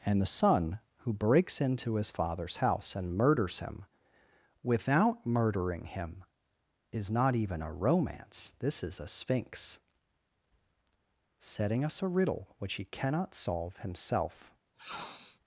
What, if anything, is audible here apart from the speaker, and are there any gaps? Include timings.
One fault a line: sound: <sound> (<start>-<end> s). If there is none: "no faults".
sound: sniff (14.7-15.4 s)